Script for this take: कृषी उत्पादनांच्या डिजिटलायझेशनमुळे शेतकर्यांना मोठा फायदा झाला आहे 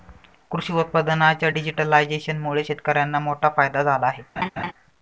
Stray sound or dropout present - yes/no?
yes